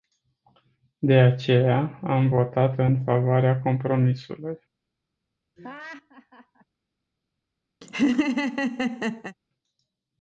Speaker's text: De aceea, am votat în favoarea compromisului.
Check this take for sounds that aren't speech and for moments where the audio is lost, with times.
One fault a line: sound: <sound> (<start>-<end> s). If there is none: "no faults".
sound: laugh (5.6-6.6 s)
sound: laugh (7.8-9.4 s)